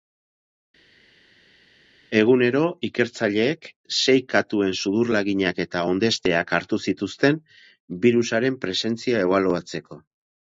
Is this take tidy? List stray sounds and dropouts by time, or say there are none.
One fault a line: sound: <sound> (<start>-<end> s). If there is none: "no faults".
no faults